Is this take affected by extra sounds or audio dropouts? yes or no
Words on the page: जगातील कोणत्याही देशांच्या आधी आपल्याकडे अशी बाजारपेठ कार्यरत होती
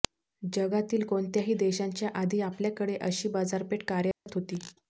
yes